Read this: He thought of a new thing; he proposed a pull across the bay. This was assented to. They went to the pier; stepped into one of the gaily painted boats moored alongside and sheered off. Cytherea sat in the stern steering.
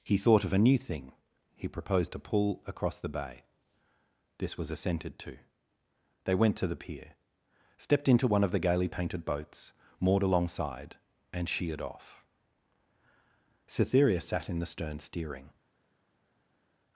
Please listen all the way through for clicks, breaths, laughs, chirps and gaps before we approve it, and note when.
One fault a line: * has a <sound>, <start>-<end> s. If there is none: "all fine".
all fine